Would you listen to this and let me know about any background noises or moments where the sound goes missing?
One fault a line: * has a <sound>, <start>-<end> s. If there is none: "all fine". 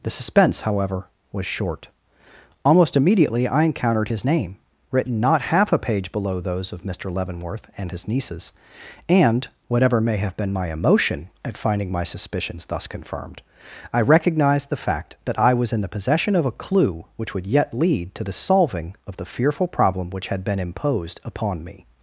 all fine